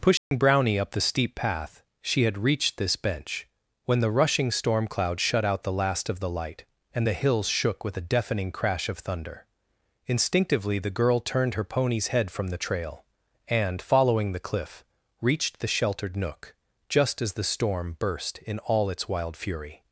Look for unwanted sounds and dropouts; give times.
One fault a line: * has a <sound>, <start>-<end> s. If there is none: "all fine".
* has a dropout, 0.2-0.3 s